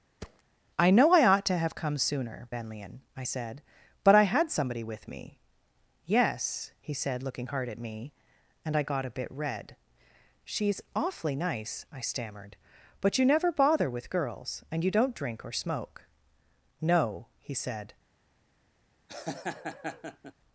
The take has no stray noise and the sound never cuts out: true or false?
false